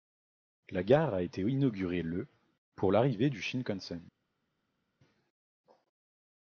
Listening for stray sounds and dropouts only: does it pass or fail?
pass